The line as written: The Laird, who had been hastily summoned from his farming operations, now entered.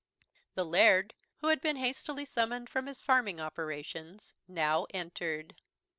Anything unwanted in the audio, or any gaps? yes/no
no